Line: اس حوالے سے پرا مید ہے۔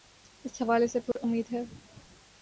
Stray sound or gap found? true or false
true